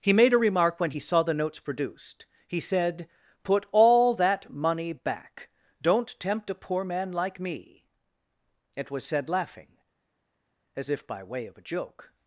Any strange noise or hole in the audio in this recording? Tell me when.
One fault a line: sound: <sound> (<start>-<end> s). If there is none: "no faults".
no faults